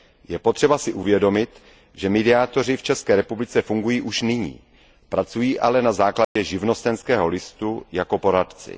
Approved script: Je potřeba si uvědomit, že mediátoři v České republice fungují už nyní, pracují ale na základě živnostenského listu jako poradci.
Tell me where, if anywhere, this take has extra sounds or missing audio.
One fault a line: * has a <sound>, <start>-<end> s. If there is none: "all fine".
* has a dropout, 6.2-6.4 s